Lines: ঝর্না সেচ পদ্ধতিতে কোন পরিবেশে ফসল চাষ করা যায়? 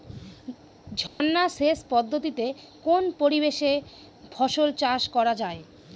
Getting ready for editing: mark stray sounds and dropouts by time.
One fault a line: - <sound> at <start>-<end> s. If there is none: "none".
- dropout at 1.1-1.2 s